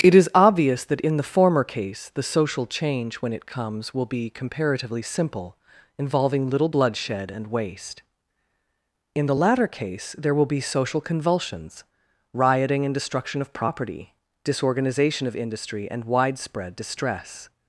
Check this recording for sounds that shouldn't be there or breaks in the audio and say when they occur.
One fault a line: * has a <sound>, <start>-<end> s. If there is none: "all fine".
all fine